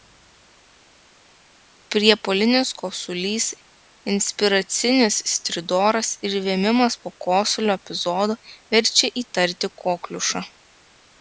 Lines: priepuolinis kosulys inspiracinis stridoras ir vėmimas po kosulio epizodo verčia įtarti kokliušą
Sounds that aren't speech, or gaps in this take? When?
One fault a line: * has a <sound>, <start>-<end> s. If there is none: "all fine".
all fine